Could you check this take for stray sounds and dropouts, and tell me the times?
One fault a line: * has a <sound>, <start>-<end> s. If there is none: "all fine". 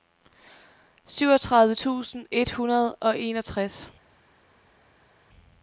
all fine